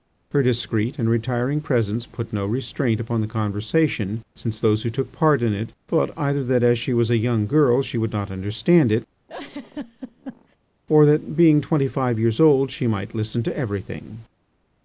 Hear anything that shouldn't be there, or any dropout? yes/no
yes